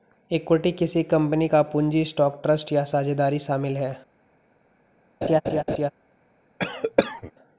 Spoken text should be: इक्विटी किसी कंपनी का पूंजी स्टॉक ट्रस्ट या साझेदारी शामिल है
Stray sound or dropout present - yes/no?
yes